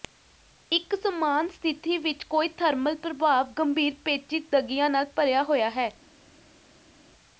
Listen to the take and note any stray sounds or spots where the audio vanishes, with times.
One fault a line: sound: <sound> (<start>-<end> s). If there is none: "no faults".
no faults